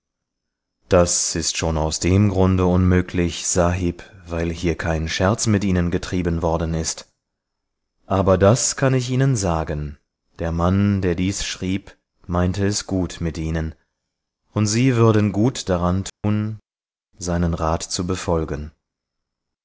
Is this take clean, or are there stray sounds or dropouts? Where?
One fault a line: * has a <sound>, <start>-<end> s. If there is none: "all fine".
* has a dropout, 16.1-16.2 s